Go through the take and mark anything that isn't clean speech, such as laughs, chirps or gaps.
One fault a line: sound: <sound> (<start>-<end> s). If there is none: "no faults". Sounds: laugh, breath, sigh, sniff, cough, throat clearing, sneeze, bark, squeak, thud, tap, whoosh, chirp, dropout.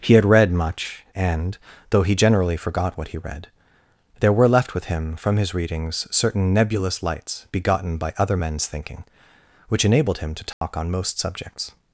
sound: dropout (10.5-10.6 s)